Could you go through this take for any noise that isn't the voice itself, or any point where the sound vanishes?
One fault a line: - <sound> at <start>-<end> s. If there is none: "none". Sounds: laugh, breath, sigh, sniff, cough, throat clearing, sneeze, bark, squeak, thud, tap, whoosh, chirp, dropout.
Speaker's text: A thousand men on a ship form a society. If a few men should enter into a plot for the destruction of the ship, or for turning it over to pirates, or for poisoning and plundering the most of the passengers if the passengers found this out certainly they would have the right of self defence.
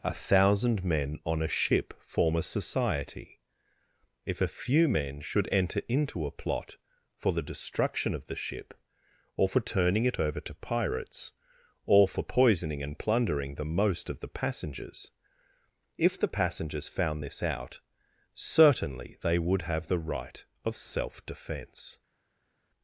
none